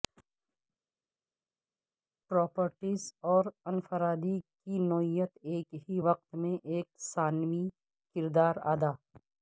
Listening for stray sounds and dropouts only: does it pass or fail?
pass